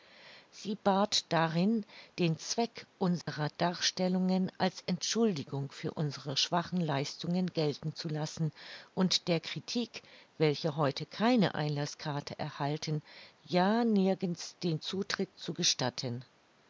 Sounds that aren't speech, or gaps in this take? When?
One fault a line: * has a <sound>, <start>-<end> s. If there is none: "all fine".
* has a dropout, 3.2-3.3 s